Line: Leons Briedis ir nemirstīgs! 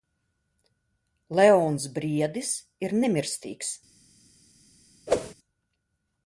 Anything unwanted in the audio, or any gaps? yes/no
yes